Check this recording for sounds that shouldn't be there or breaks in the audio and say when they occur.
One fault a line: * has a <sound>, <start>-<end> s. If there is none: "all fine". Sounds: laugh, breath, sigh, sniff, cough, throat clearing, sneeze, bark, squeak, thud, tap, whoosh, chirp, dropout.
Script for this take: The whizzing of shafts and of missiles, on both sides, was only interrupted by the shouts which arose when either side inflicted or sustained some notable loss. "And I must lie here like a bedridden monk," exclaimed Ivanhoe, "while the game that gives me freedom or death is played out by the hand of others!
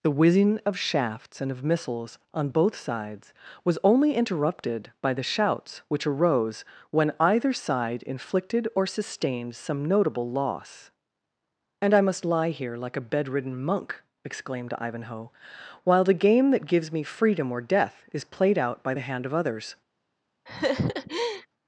* has a laugh, 20.5-21.5 s